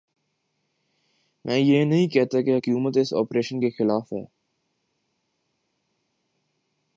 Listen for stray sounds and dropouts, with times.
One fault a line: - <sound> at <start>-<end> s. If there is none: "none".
none